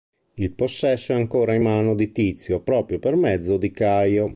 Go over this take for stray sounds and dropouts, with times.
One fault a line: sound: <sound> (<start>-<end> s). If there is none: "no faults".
no faults